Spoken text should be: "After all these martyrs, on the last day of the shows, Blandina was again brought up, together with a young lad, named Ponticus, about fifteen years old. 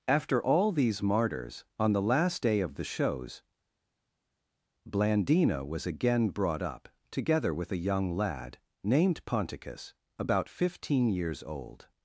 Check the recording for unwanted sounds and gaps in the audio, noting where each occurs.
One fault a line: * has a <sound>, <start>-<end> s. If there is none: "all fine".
all fine